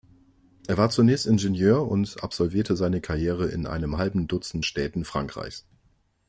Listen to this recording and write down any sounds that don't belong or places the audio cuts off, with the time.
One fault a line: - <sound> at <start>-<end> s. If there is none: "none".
none